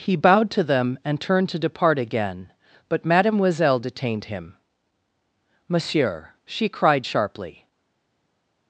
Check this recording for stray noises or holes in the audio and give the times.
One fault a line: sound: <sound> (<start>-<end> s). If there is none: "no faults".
no faults